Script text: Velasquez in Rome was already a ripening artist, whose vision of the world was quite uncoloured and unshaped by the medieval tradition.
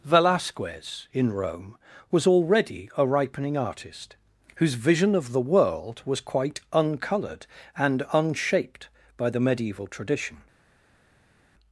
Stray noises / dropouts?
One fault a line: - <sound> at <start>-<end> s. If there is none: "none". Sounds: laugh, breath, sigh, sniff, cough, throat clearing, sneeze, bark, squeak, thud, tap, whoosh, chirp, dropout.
none